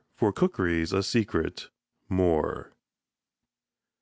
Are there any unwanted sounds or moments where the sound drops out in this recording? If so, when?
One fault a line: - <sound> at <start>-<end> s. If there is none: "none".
none